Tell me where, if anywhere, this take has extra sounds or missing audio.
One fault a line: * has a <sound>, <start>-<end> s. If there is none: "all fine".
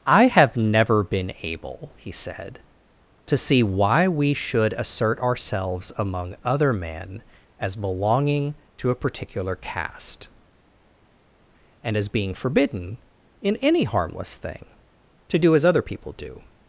all fine